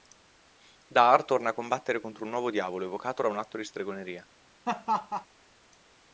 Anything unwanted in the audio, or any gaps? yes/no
yes